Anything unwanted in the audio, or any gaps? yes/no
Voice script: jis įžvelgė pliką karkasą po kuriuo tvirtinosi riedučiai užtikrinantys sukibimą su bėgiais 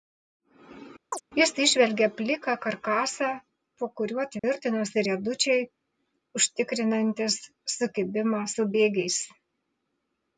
yes